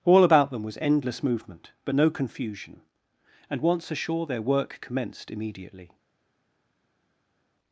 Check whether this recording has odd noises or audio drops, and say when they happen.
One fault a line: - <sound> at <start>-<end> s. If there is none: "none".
none